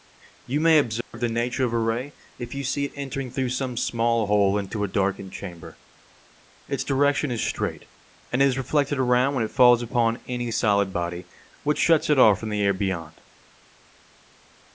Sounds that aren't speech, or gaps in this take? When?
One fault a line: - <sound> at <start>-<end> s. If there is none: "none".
- dropout at 1.0-1.1 s